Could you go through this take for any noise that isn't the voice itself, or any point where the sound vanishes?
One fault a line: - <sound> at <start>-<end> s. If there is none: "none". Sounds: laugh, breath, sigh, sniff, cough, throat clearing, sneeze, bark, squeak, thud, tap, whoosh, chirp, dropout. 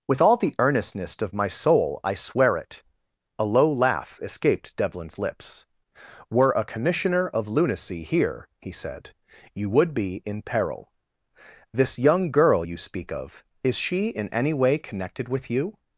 none